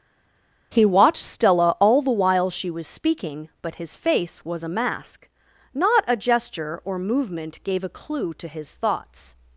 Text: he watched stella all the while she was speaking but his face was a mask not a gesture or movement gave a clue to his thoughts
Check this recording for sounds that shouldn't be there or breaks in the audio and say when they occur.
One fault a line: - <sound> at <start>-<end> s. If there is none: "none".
none